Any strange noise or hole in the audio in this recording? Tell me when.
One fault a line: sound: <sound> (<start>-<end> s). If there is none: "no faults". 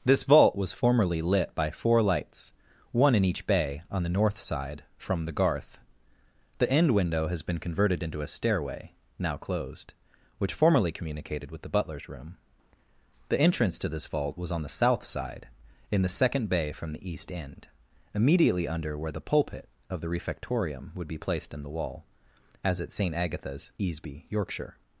no faults